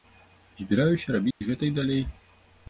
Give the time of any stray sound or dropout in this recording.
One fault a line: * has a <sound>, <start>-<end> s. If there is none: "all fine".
* has a dropout, 1.3-1.4 s